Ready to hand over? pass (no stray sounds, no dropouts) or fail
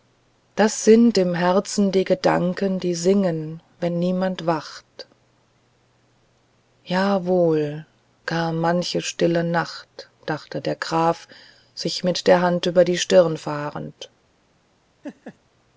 fail